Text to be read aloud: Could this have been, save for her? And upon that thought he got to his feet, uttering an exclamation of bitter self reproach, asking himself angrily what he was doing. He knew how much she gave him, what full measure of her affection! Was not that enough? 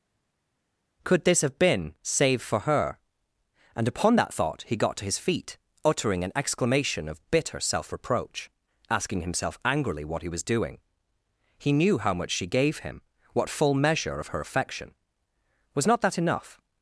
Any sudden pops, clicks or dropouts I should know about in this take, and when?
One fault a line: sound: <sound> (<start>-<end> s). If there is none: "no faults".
no faults